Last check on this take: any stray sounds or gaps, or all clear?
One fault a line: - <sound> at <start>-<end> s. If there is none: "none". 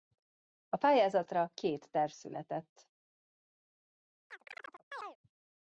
- chirp at 4.3-5.2 s